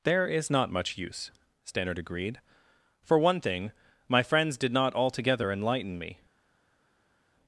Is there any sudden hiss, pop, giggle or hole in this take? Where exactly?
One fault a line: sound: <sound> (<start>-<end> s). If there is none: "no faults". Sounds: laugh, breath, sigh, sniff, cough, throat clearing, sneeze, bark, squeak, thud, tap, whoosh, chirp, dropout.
no faults